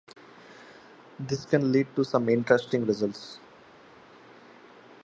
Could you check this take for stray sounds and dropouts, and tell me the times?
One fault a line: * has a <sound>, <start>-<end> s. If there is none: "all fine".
all fine